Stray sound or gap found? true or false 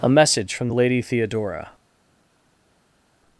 false